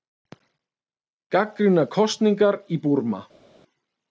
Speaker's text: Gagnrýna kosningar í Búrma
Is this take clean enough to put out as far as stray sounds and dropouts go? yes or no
yes